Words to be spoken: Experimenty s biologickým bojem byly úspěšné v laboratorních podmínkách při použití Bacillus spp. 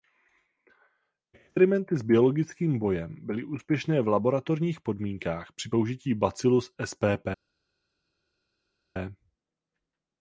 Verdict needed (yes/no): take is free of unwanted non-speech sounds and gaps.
yes